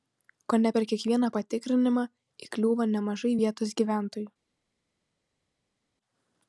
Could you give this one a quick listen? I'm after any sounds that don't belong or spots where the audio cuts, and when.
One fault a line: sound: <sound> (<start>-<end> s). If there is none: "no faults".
no faults